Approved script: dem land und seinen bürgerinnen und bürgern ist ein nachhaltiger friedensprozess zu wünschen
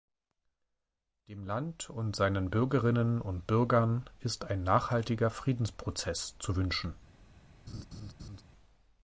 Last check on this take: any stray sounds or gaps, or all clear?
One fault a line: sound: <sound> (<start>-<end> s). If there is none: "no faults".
sound: laugh (7.7-8.4 s)